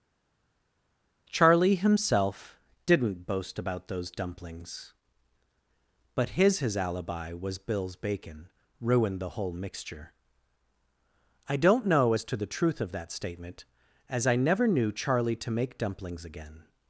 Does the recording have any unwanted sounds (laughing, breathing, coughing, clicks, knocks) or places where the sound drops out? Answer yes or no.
no